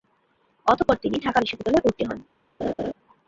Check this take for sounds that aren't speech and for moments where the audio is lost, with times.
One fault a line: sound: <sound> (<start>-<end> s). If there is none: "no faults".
sound: laugh (2.6-2.9 s)